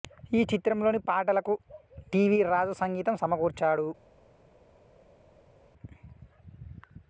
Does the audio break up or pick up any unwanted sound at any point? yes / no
no